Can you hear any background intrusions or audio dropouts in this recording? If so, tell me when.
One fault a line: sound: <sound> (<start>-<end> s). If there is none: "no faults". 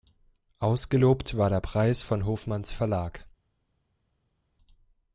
no faults